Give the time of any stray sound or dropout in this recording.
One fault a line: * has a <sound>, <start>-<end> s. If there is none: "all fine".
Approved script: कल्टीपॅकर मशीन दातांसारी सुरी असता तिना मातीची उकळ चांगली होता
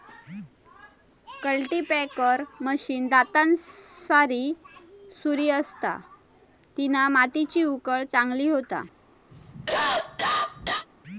* has a cough, 9.3-10.9 s